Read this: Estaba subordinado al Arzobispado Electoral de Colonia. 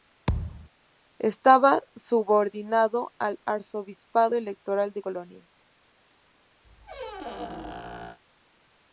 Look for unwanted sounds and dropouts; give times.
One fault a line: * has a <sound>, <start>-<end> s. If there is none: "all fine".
* has a thud, 0.3-0.7 s
* has a squeak, 6.6-8.2 s